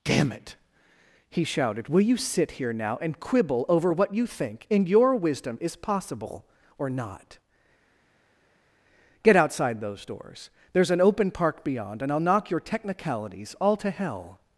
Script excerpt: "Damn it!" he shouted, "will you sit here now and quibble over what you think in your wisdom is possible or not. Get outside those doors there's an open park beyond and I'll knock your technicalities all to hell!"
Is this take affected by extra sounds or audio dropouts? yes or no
no